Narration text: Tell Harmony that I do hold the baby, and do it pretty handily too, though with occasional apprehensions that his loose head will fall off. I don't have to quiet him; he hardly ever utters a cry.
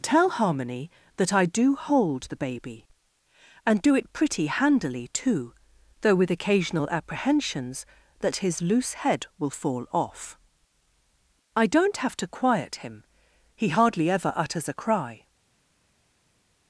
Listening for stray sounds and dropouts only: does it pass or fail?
pass